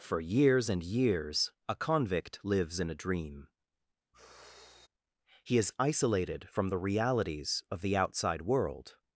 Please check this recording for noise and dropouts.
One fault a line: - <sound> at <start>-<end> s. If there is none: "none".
- sigh at 4.1-4.9 s